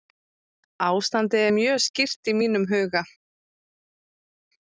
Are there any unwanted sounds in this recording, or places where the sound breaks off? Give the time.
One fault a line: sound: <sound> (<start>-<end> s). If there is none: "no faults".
no faults